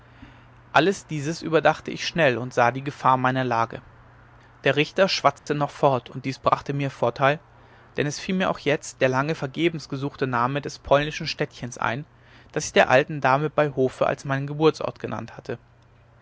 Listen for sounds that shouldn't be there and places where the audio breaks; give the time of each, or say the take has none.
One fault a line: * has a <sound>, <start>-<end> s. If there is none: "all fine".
* has a dropout, 5.4-5.5 s